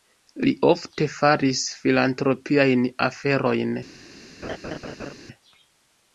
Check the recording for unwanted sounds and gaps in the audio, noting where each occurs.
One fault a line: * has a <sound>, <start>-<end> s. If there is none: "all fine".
* has a laugh, 4.4-5.1 s